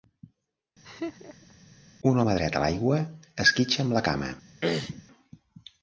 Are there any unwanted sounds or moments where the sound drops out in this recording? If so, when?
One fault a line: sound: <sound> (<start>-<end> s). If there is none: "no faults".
sound: laugh (0.8-1.5 s)
sound: throat clearing (4.6-5.0 s)